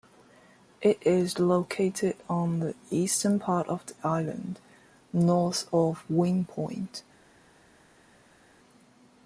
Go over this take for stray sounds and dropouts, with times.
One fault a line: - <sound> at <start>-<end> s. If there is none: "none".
none